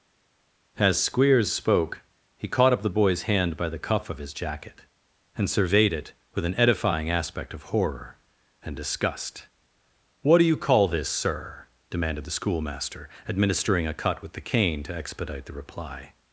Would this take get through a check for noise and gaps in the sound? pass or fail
pass